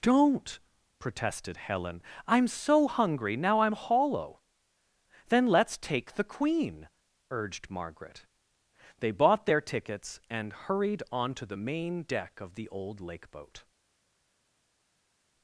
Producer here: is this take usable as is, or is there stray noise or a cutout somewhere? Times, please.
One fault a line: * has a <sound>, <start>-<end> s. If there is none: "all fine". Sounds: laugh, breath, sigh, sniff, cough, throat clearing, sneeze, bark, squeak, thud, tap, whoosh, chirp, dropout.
all fine